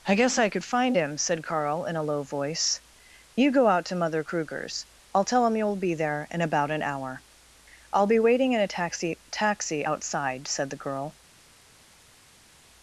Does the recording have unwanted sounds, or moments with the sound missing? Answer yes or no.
no